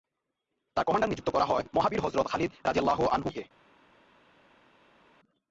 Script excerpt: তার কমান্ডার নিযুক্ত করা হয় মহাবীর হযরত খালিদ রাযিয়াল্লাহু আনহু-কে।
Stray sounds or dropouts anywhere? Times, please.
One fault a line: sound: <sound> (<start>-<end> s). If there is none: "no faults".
no faults